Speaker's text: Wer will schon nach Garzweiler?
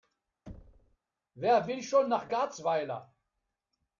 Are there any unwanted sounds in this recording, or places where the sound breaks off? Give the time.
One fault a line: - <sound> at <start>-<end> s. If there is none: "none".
- thud at 0.5-1.0 s